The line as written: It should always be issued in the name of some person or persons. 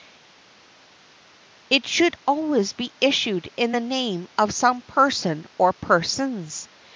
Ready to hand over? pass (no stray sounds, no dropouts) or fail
pass